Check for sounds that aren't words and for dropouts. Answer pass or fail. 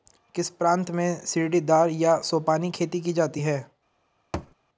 fail